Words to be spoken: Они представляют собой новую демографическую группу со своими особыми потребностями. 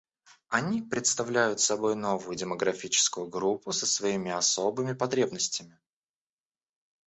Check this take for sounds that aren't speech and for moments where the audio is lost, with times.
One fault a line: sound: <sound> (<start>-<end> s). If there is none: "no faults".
no faults